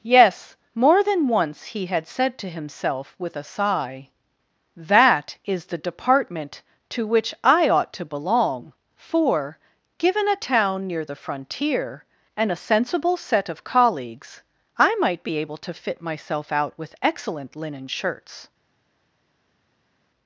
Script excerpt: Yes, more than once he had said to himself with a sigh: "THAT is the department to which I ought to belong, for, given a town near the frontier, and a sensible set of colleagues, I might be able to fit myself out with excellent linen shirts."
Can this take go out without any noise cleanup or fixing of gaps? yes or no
yes